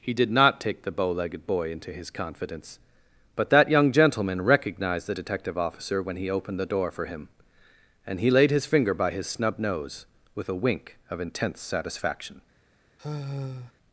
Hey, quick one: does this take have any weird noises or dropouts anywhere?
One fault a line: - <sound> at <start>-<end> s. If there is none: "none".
- sigh at 13.0-13.7 s